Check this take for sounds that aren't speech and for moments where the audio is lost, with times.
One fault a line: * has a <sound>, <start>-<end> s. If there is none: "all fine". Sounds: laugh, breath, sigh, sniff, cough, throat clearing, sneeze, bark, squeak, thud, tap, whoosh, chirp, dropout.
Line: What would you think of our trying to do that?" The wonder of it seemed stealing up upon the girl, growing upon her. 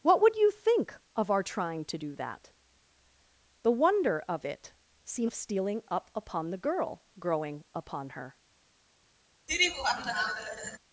* has a laugh, 9.5-10.8 s